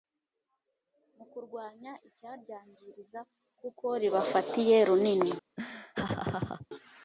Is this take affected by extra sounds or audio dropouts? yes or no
yes